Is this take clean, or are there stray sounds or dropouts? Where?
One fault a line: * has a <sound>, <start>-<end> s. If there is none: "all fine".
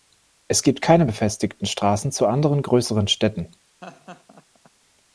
* has a laugh, 3.8-4.7 s